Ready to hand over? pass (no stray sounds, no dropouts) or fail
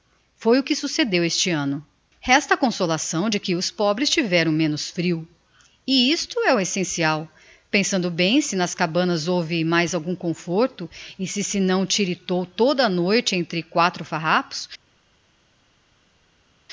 pass